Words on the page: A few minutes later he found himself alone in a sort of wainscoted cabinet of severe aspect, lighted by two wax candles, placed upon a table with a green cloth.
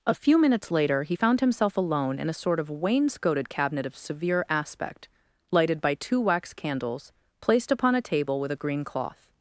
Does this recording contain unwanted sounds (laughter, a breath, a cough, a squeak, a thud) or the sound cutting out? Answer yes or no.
no